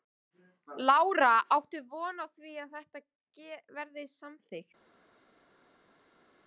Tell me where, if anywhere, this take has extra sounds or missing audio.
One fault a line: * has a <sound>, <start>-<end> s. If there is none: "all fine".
all fine